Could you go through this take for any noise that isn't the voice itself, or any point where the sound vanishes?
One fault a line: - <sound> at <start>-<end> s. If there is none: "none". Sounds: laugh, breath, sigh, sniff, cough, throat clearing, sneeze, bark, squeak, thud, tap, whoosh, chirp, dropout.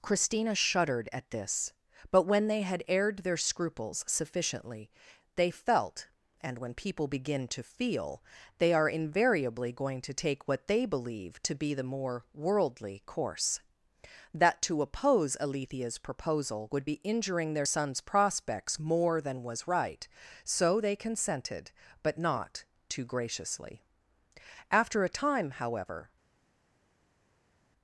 none